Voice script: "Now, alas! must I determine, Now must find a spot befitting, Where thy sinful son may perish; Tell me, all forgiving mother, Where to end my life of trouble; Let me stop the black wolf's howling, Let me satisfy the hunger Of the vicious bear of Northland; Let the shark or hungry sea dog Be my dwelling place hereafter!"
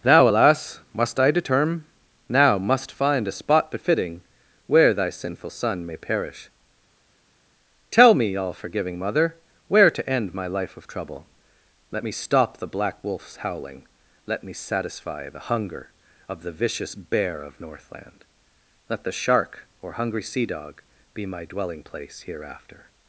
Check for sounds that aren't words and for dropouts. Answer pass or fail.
pass